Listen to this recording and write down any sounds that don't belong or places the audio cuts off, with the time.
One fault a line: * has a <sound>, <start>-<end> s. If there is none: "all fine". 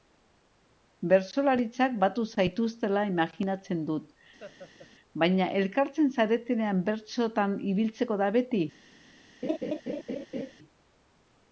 * has a laugh, 4.4-4.9 s
* has a laugh, 9.4-10.5 s